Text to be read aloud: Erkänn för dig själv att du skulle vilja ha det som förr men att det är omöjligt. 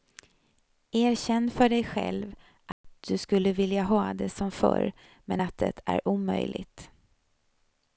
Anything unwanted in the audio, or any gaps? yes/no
yes